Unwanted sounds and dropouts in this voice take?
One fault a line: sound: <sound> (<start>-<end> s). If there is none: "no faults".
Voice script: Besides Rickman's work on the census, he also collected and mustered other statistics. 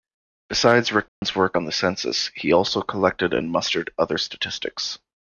sound: dropout (1.1-1.2 s)